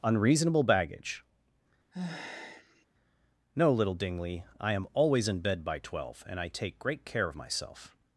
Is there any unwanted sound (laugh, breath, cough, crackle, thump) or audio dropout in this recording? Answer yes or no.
yes